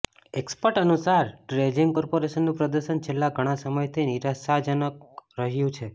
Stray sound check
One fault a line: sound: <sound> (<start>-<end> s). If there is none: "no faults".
no faults